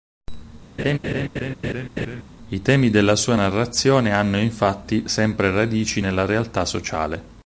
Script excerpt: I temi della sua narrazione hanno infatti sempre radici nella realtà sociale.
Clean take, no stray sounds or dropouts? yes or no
no